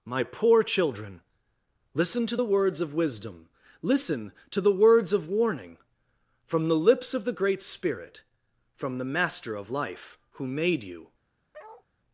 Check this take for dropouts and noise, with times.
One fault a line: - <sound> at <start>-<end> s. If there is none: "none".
- bark at 11.5-11.9 s